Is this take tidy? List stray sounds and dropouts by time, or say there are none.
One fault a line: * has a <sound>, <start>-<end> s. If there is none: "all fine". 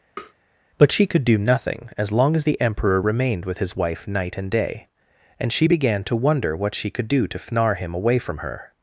* has a tap, 0.2-0.3 s